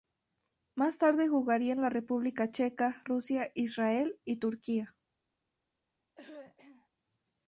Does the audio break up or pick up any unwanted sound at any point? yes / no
yes